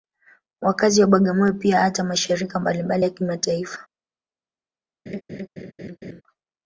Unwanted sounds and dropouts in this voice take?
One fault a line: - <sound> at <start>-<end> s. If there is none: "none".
- laugh at 5.1-6.2 s